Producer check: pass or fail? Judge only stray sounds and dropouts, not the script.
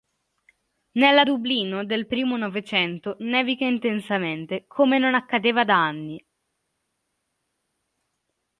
pass